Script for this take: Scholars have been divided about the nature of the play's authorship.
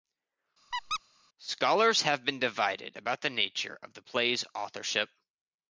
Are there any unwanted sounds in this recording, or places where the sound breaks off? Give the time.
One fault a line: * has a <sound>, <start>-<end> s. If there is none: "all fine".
* has a squeak, 0.7-1.0 s